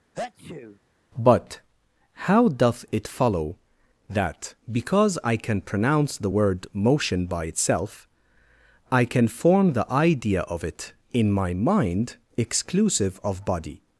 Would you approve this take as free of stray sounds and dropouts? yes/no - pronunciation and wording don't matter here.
no